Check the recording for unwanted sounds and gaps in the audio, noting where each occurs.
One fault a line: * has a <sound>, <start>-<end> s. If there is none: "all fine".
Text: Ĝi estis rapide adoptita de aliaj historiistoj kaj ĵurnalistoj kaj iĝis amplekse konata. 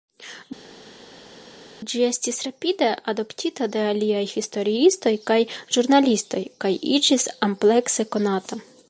all fine